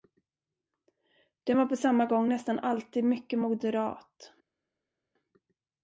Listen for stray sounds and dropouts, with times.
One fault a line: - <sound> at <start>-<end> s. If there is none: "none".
none